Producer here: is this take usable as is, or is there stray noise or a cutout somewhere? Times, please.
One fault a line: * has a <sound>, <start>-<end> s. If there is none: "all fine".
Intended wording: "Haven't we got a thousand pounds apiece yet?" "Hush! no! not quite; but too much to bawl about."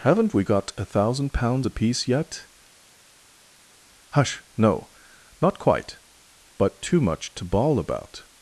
all fine